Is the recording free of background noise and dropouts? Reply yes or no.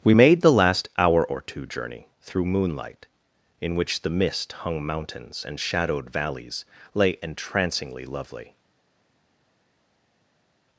yes